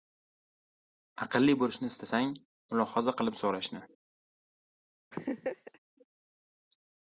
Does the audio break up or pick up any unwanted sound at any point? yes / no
yes